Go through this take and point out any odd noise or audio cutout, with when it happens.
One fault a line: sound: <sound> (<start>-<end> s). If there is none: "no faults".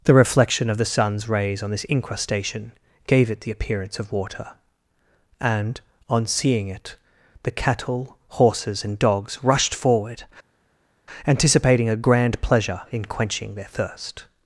no faults